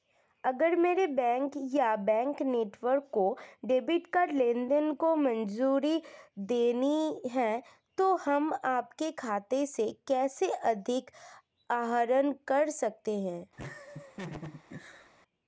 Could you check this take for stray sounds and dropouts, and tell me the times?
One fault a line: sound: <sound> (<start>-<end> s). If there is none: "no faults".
sound: laugh (13.6-15.1 s)